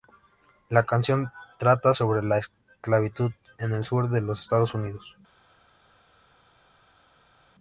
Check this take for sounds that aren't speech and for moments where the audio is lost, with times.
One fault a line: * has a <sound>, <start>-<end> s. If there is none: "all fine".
all fine